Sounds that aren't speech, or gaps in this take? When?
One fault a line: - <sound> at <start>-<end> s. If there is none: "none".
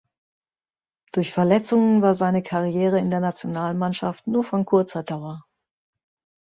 none